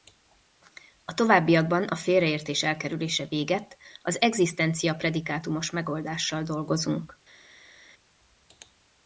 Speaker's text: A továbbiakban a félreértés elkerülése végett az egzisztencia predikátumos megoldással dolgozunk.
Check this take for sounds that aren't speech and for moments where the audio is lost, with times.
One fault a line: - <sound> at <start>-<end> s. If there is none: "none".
none